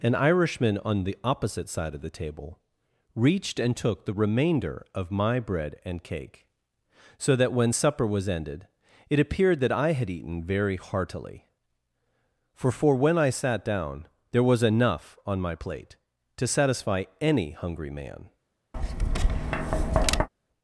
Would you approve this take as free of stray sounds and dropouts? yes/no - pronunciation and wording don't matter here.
no